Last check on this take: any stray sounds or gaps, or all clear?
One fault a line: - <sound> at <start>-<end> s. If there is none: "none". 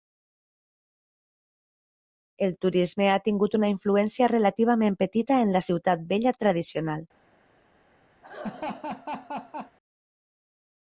- laugh at 8.2-9.8 s